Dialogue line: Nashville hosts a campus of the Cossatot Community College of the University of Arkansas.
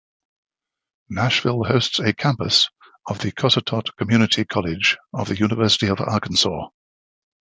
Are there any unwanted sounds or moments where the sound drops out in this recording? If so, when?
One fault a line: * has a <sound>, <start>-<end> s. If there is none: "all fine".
all fine